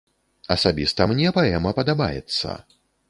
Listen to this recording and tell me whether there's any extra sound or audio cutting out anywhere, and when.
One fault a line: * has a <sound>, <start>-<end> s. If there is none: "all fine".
all fine